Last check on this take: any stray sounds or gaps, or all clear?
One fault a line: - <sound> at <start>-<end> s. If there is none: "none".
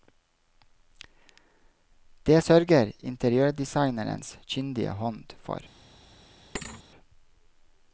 - thud at 6.5-6.8 s